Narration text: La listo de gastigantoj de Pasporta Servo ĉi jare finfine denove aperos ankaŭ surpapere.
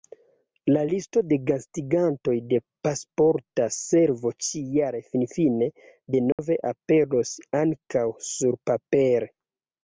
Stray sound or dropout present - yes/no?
yes